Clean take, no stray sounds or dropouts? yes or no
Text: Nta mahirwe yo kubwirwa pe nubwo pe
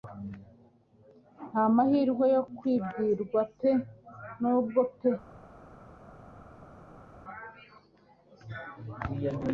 yes